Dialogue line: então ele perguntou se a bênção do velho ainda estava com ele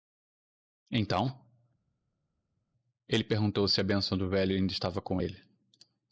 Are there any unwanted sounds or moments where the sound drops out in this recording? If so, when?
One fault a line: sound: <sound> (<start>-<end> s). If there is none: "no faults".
no faults